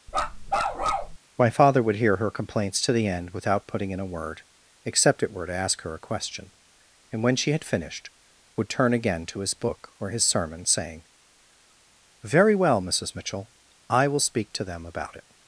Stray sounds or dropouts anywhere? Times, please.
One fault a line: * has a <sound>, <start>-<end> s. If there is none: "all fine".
* has a bark, 0.1-1.2 s